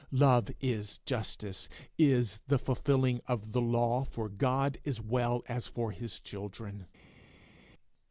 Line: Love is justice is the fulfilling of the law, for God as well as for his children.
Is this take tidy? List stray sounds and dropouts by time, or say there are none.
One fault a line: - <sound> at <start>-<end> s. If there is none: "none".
none